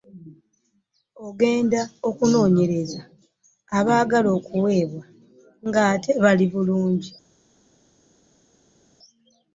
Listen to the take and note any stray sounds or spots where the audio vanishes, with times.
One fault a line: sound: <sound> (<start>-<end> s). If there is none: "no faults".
no faults